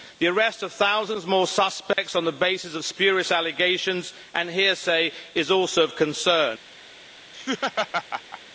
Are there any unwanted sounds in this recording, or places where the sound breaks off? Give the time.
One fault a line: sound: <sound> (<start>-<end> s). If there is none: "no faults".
sound: dropout (1.9-2.0 s)
sound: laugh (7.3-8.4 s)